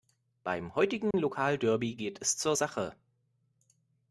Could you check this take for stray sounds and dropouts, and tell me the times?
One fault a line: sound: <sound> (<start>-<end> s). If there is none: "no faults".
sound: dropout (1.1-1.1 s)